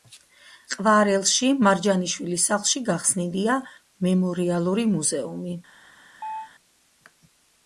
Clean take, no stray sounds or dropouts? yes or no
no